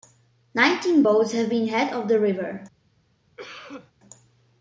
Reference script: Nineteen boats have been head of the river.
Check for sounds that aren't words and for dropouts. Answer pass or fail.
fail